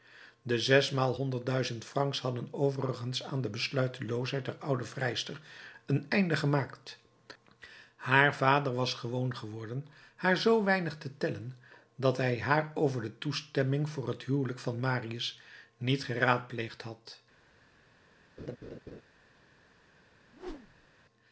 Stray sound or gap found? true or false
true